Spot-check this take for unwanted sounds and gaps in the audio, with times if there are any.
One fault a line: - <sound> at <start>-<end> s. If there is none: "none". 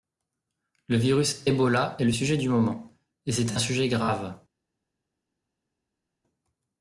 none